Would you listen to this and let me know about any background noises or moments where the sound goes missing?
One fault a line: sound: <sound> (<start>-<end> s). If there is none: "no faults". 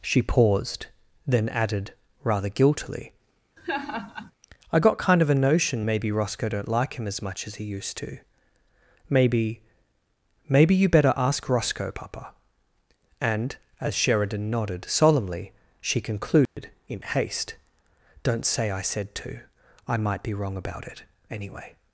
sound: laugh (3.6-4.3 s)
sound: dropout (16.5-16.6 s)